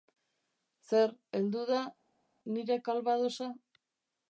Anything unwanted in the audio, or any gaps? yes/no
no